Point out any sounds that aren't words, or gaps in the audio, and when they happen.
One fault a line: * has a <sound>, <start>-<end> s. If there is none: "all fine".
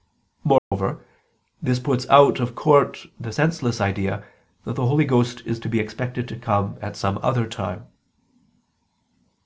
* has a dropout, 0.6-0.7 s